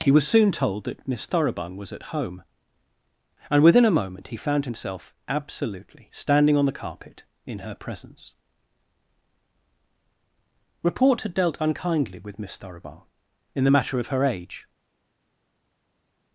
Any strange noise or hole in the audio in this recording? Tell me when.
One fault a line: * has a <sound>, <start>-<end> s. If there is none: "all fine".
all fine